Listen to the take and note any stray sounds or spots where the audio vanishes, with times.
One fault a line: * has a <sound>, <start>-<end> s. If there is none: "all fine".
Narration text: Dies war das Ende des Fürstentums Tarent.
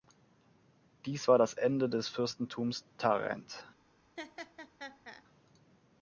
* has a laugh, 4.2-5.2 s